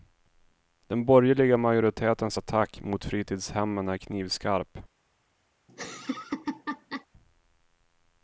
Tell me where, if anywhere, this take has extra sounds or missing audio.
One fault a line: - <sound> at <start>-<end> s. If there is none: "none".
- laugh at 5.7-7.1 s